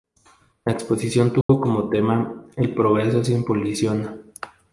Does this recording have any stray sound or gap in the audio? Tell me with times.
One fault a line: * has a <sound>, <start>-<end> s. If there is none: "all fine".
* has a dropout, 1.4-1.5 s